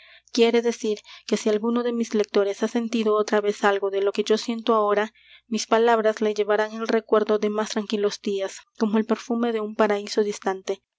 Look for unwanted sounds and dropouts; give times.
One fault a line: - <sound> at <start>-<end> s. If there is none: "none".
none